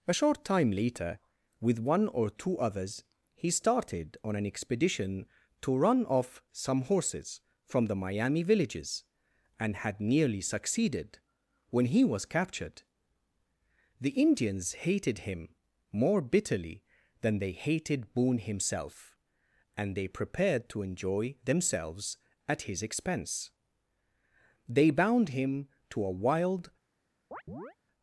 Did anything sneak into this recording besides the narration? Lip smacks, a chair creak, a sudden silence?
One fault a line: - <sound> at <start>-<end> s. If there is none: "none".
- chirp at 27.3-27.8 s